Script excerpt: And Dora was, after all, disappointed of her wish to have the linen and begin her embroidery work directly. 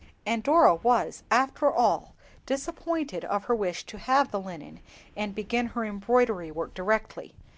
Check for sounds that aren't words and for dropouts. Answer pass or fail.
pass